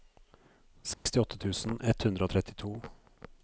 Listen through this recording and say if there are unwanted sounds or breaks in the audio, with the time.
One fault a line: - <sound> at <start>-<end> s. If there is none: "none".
- dropout at 0.9-1.1 s